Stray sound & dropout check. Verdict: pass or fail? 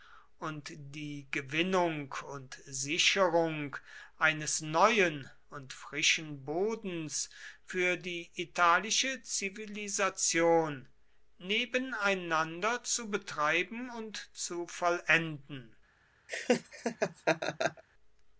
fail